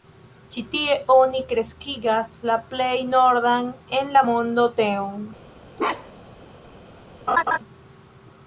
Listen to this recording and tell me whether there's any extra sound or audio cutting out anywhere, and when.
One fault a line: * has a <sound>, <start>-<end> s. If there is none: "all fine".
* has a bark, 5.8-6.4 s
* has a laugh, 7.3-7.6 s